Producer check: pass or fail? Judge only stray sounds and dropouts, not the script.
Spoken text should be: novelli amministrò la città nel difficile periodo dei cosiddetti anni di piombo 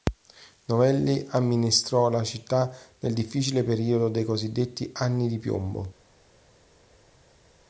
pass